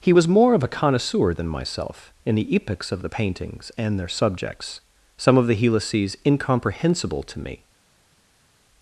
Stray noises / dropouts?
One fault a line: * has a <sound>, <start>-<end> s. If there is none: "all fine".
all fine